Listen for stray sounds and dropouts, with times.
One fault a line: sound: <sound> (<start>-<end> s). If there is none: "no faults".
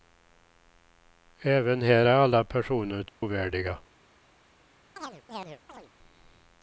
sound: dropout (3.1-3.2 s)
sound: chirp (5.0-5.9 s)